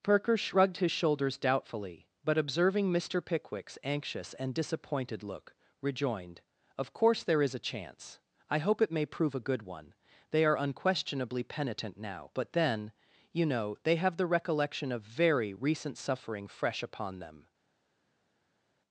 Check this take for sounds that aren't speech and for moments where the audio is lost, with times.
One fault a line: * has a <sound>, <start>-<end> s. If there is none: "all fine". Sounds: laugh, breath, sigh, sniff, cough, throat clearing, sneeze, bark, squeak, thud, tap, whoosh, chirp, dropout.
all fine